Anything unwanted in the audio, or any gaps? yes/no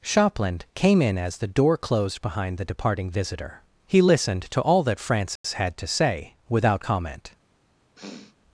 yes